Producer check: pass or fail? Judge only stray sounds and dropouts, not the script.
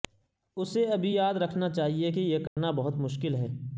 fail